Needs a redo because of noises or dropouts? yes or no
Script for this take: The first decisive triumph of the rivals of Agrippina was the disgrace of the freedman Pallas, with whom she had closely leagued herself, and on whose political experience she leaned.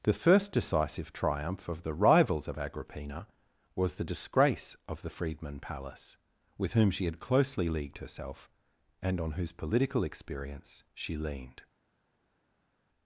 no